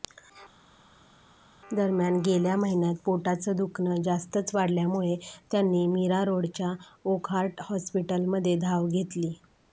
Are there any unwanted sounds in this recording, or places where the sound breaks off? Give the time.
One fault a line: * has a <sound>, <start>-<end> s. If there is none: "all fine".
all fine